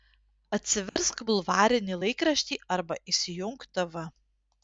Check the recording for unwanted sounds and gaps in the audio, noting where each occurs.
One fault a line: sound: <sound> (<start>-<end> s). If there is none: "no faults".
sound: dropout (0.9-1.0 s)